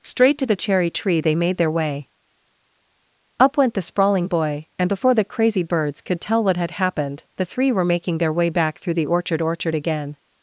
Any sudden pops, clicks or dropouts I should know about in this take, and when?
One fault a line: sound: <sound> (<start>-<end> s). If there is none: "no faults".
no faults